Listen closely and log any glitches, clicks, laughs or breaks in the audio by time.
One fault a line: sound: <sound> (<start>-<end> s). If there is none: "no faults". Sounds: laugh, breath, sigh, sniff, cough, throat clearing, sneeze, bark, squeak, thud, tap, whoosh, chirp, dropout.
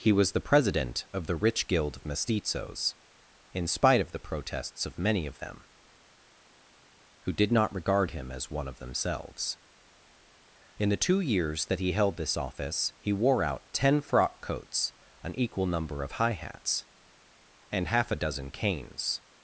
no faults